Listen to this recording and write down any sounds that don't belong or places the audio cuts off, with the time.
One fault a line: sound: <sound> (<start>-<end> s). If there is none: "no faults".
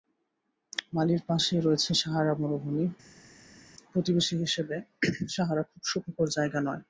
no faults